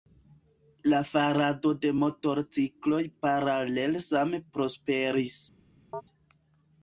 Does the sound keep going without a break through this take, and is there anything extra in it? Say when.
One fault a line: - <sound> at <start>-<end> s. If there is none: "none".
- chirp at 5.9-6.0 s